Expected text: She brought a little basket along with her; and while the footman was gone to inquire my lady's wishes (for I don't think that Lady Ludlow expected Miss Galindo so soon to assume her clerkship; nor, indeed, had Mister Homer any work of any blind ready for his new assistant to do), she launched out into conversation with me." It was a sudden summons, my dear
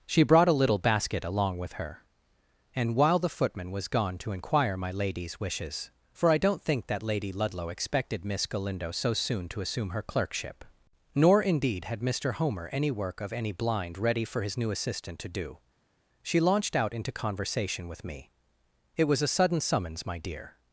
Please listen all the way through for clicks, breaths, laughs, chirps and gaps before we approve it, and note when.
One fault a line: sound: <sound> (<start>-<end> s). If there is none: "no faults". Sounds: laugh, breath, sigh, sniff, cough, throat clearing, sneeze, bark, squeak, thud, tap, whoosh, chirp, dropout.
no faults